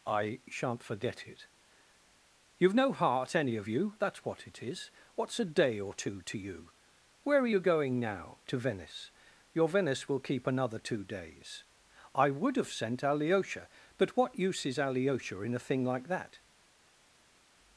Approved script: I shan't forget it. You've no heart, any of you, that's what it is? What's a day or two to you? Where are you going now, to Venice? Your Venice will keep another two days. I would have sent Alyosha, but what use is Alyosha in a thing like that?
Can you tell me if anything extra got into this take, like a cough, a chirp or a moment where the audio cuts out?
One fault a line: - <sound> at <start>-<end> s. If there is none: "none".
none